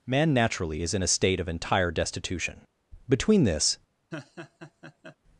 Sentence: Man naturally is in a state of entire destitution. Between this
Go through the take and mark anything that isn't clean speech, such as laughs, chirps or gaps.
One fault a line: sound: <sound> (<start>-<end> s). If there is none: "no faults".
sound: laugh (4.1-5.2 s)